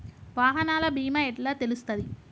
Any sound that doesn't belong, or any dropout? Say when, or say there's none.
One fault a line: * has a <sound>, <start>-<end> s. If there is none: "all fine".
all fine